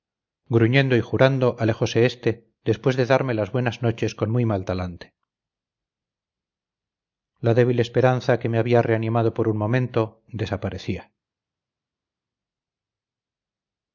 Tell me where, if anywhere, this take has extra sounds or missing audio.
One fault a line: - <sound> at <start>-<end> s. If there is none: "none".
none